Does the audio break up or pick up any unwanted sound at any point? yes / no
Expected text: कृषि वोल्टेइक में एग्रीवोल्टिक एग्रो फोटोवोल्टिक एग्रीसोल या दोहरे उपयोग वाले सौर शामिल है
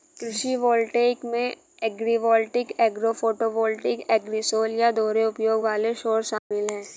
yes